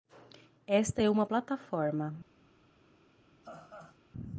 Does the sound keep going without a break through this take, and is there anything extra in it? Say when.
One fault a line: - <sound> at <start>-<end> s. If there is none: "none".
- laugh at 3.4-4.0 s